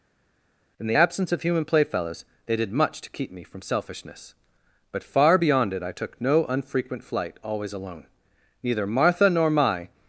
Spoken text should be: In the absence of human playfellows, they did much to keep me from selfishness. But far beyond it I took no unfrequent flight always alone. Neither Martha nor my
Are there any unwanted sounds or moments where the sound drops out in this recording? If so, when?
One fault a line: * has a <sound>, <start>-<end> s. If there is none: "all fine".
all fine